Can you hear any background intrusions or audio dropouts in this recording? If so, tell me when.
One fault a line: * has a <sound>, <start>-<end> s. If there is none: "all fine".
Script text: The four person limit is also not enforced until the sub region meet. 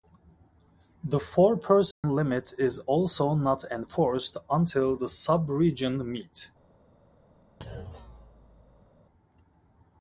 * has a dropout, 1.9-2.0 s
* has a thud, 7.6-8.9 s